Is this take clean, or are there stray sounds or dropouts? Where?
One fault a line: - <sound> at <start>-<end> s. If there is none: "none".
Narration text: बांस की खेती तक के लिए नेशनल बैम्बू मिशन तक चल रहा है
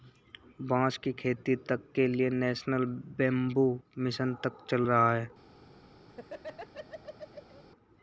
- laugh at 6.1-7.6 s